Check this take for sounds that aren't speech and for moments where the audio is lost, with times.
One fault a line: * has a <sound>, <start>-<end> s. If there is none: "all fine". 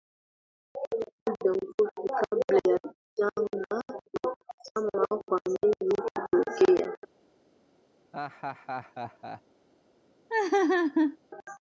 * has a laugh, 8.1-9.4 s
* has a laugh, 10.3-11.2 s